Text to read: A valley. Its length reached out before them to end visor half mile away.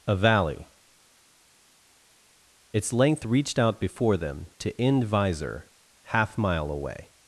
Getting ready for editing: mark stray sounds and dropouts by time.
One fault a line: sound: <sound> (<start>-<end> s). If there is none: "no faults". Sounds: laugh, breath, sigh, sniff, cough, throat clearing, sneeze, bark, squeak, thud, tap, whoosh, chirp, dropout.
no faults